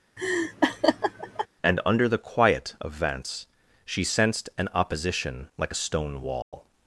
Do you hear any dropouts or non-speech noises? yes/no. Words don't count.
yes